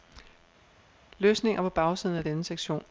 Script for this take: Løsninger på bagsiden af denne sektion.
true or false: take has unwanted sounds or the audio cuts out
false